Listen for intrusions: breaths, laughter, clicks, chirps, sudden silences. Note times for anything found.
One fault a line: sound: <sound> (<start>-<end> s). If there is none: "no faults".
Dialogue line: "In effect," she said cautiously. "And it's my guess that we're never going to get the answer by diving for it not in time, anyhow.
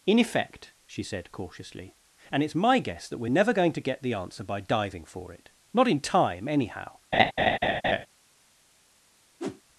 sound: laugh (7.1-8.1 s)
sound: whoosh (9.4-9.6 s)